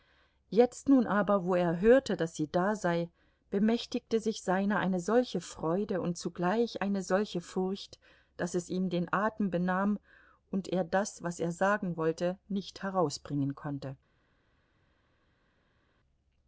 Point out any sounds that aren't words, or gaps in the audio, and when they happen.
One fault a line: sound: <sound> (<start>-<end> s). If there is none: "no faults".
no faults